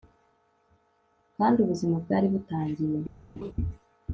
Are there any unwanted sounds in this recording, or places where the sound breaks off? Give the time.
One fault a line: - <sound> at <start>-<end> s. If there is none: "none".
- laugh at 3.4-3.5 s